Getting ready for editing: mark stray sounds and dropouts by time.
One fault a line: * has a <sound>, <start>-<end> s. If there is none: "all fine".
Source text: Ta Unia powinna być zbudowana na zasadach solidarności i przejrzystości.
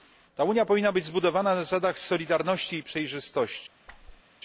* has a whoosh, 3.9-4.2 s